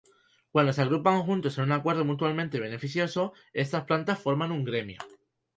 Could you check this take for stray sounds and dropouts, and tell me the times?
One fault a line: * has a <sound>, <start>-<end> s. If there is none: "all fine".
all fine